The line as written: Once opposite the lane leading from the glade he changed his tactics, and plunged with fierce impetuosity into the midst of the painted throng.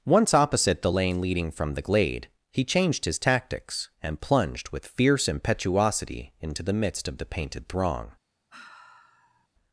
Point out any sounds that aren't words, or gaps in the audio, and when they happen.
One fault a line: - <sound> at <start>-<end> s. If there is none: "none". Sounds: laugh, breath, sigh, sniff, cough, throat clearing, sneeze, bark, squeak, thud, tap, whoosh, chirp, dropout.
- sigh at 8.5-9.5 s